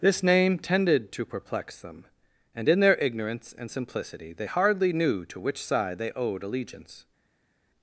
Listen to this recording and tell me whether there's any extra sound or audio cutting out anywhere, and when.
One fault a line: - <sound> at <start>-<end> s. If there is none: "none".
none